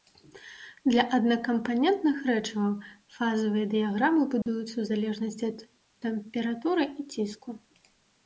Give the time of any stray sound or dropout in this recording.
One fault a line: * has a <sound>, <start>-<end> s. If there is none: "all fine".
* has a dropout, 4.4-4.5 s